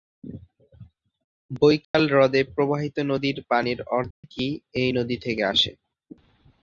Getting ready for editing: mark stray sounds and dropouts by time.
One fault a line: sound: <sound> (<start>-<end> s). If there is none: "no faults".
sound: dropout (1.8-1.9 s)
sound: dropout (4.1-4.2 s)